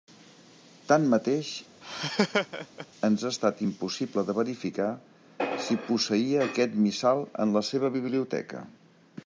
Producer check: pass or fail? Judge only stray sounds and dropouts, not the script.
fail